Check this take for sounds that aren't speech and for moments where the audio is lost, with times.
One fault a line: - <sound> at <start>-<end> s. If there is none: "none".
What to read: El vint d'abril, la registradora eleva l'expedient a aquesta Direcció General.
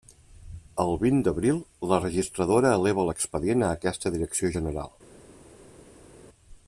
none